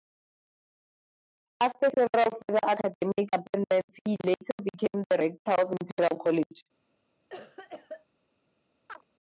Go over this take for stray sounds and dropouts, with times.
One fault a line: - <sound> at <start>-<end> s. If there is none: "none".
- cough at 7.3-8.1 s
- chirp at 8.9-9.0 s